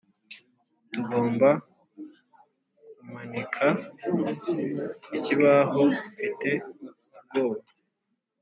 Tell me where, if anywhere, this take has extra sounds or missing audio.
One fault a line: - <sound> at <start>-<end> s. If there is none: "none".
none